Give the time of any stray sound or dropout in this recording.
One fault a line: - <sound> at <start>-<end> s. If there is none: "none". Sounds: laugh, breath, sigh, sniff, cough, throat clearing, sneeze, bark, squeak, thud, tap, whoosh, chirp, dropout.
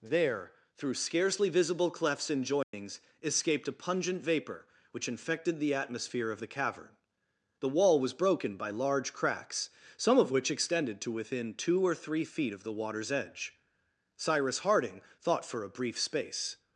- dropout at 2.6-2.7 s